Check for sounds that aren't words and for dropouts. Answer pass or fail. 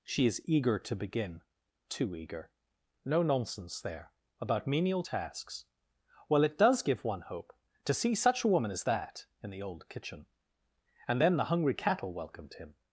pass